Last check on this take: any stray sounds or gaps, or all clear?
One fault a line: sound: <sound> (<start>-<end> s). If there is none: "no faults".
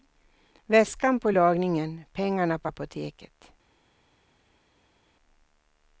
no faults